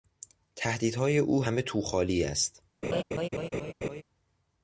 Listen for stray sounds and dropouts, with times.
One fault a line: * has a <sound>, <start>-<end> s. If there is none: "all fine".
* has a laugh, 2.8-4.0 s